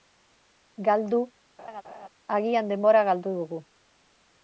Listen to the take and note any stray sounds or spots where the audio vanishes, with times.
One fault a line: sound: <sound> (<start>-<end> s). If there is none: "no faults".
sound: laugh (1.6-2.1 s)